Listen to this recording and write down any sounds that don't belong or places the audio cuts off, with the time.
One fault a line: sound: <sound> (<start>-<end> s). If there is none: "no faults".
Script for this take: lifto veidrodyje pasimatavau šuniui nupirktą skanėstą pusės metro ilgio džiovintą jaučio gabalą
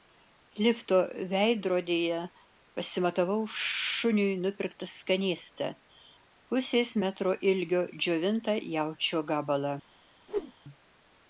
sound: whoosh (10.3-10.5 s)